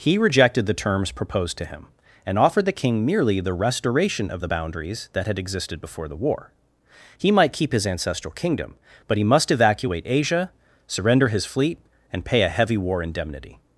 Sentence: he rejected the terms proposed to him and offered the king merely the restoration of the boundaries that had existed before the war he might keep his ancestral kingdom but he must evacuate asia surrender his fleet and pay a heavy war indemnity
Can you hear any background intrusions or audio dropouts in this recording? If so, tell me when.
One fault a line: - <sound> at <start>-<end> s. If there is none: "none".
none